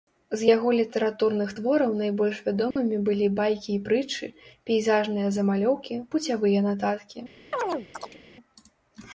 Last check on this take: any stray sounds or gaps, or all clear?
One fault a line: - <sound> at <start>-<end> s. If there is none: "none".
- dropout at 2.7-2.8 s
- chirp at 7.5-8.2 s